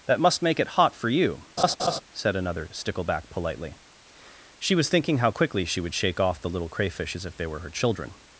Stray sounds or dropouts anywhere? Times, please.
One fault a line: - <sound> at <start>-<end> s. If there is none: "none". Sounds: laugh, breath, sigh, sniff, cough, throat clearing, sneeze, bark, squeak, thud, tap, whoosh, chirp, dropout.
- laugh at 1.6-2.0 s